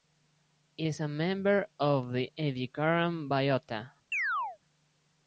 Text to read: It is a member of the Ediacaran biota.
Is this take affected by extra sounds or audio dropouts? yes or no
yes